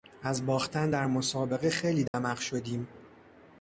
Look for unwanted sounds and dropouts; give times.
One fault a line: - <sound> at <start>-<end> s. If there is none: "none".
- dropout at 2.1-2.1 s